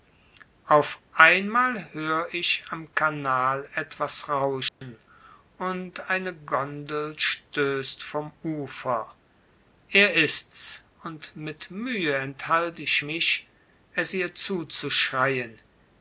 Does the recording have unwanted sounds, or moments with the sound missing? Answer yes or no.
yes